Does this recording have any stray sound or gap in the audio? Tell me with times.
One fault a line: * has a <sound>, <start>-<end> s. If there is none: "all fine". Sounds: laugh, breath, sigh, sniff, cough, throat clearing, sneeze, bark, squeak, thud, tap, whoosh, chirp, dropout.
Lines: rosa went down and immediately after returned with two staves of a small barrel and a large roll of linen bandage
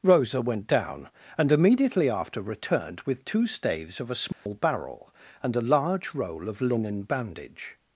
* has a dropout, 4.3-4.5 s